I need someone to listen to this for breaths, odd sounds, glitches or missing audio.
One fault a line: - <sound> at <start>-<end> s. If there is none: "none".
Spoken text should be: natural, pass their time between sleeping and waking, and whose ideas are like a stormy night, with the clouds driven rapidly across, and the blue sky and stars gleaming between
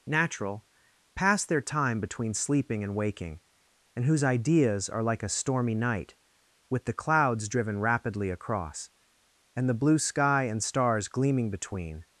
none